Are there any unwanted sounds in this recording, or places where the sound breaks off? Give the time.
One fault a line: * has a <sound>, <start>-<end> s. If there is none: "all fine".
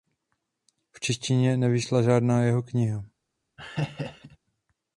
* has a laugh, 3.6-4.4 s